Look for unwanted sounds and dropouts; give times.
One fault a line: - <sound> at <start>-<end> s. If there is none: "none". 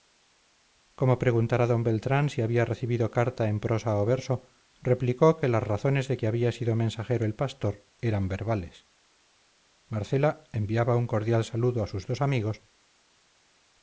none